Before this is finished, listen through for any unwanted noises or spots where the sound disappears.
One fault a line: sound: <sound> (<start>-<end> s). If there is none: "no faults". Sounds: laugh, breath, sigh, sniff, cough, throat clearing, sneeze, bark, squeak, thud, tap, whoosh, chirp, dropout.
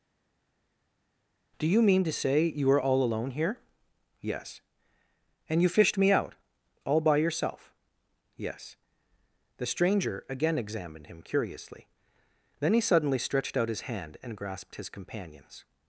no faults